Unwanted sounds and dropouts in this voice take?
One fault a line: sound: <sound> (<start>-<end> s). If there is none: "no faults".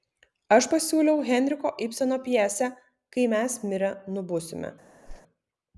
sound: whoosh (5.1-5.2 s)